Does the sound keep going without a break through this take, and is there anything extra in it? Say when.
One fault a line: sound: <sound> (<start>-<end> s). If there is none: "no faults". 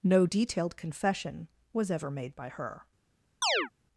sound: chirp (3.4-3.7 s)